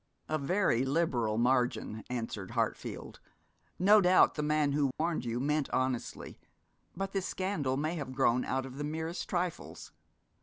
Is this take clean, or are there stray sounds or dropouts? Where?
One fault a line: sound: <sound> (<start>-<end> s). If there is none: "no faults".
sound: dropout (4.9-5.0 s)